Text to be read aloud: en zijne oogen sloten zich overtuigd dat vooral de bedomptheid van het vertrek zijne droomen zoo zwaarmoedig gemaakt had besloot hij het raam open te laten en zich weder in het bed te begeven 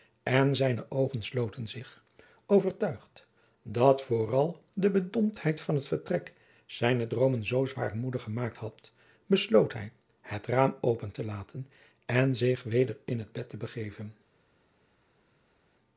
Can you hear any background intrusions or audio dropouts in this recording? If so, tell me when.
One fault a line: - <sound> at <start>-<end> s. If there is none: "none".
none